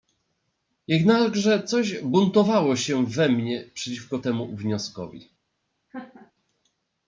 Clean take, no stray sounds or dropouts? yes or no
no